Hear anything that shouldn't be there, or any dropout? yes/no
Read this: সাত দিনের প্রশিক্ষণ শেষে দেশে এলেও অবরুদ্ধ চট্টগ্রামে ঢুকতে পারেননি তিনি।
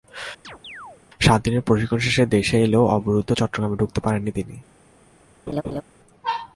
yes